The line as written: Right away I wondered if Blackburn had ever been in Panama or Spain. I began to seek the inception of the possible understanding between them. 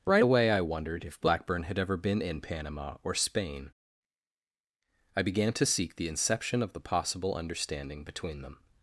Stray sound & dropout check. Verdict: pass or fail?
pass